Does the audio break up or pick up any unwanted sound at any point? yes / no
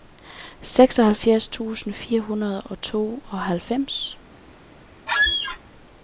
yes